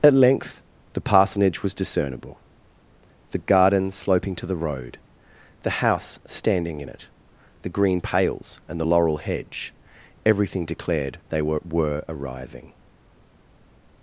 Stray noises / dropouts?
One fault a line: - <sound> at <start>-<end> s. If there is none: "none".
none